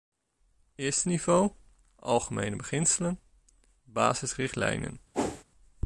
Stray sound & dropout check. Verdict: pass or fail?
fail